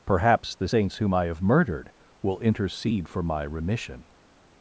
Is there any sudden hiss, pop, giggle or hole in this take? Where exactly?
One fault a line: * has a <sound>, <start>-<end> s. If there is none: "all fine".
all fine